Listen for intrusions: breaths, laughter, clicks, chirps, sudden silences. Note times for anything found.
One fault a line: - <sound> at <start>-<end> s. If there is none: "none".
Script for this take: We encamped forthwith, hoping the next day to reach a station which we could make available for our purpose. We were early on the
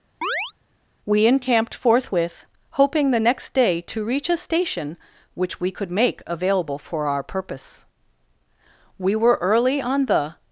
- chirp at 0.2-0.5 s